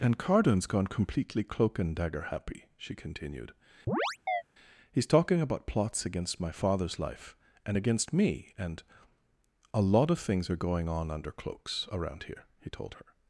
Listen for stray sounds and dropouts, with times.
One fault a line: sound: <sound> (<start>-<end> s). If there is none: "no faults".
sound: chirp (3.9-4.4 s)